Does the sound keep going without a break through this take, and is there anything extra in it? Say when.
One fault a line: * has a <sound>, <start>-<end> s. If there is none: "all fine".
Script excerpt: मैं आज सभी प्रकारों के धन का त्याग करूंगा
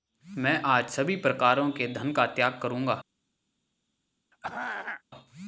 * has a throat clearing, 4.3-5.0 s